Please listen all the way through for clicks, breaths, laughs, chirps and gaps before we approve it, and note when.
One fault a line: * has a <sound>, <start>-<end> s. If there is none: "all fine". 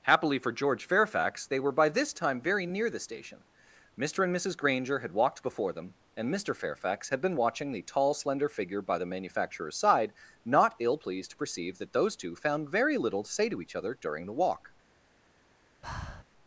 * has a breath, 15.8-16.2 s